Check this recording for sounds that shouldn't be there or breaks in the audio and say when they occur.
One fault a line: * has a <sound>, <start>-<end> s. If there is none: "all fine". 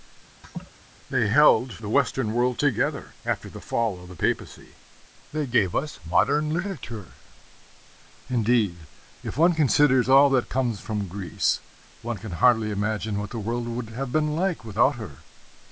* has a laugh, 0.4-0.7 s